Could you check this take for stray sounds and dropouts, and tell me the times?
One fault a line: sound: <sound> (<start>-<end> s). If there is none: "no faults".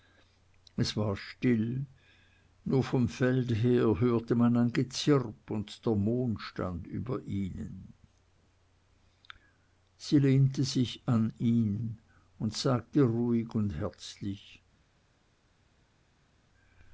no faults